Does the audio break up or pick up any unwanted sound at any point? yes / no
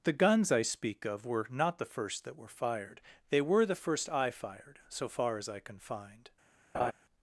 yes